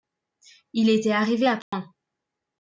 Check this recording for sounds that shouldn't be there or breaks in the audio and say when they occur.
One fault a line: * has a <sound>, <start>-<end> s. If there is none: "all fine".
* has a dropout, 1.6-1.7 s